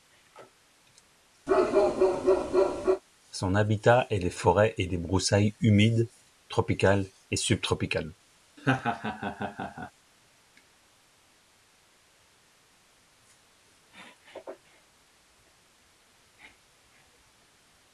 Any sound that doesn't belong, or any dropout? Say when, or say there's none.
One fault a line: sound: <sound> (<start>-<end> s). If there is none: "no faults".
sound: bark (1.5-3.0 s)
sound: laugh (8.6-9.9 s)